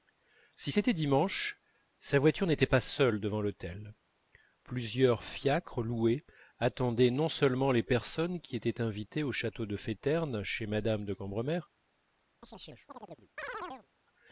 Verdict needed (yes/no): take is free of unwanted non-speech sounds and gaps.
no